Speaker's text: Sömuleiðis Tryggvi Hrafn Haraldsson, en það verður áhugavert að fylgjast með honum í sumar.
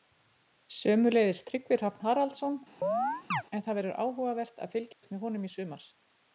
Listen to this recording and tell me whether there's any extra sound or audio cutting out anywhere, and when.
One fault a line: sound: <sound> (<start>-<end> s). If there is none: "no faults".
sound: chirp (2.8-3.4 s)
sound: dropout (4.9-5.0 s)